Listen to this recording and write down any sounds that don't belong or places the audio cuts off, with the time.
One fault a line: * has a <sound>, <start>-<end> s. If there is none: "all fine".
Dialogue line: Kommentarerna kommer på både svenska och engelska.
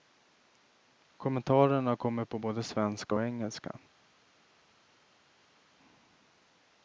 all fine